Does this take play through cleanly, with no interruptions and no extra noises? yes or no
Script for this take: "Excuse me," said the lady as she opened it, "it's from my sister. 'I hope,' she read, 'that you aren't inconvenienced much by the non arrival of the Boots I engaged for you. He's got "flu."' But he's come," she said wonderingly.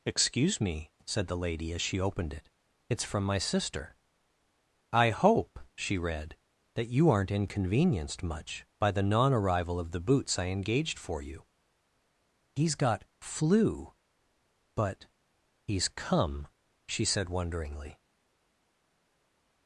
yes